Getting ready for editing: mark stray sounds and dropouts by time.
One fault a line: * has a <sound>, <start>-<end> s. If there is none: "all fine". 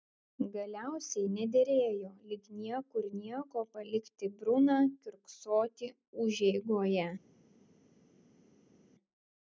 all fine